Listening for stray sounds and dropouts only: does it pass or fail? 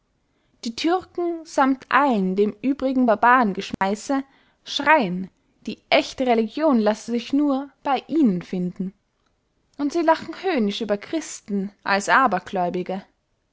fail